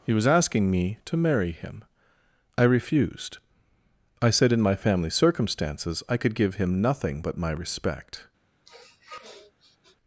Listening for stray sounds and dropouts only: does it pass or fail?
fail